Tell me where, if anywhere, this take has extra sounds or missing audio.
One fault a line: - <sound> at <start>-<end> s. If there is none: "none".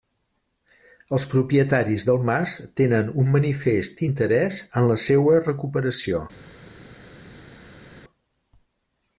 none